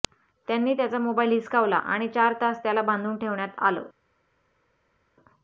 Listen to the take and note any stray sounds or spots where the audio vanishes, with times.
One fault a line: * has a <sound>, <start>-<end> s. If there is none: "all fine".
all fine